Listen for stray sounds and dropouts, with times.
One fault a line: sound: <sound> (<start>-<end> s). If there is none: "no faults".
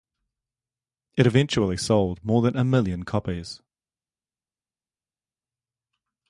no faults